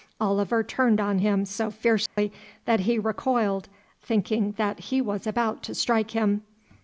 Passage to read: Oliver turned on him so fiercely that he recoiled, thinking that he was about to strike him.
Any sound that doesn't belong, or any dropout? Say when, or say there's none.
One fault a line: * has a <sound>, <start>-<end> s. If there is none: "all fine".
* has a dropout, 2.1-2.2 s